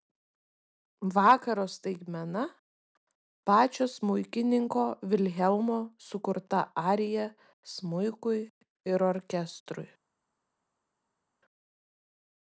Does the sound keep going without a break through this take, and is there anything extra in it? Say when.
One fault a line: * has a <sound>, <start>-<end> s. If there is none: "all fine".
all fine